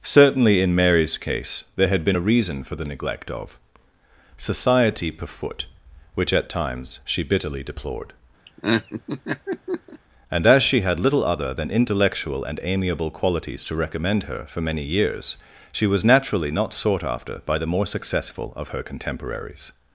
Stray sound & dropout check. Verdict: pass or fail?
fail